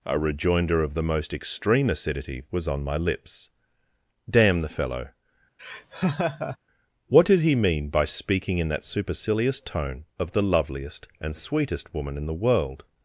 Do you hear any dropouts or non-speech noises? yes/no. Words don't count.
yes